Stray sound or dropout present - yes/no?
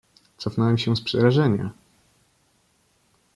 no